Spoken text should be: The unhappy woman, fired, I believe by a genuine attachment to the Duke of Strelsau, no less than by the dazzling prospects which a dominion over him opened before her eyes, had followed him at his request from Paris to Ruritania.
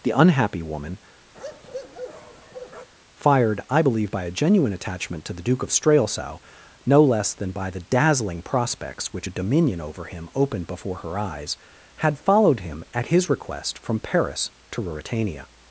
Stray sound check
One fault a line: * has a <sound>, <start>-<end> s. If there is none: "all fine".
* has a bark, 1.3-2.9 s